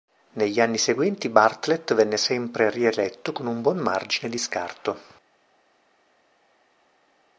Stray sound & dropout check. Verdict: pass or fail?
pass